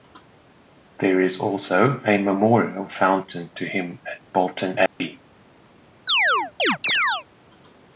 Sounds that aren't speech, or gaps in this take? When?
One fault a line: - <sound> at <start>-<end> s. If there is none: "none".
- dropout at 4.9-5.0 s
- chirp at 6.1-7.2 s